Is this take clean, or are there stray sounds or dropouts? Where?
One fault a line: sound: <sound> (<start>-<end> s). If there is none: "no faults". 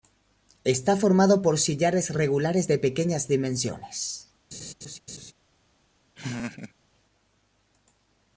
sound: laugh (4.5-5.3 s)
sound: laugh (6.1-6.7 s)